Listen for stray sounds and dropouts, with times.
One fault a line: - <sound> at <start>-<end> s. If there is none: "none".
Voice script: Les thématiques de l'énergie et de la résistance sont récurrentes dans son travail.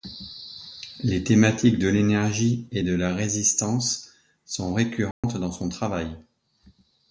- dropout at 5.1-5.2 s